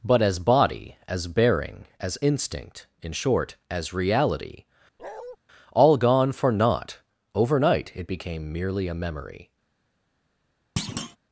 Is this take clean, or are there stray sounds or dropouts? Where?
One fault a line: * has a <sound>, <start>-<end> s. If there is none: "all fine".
* has a bark, 5.0-5.4 s
* has a thud, 10.8-11.2 s